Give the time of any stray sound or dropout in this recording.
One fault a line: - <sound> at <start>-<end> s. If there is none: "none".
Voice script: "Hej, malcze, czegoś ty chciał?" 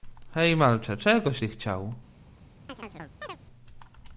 - chirp at 2.7-3.4 s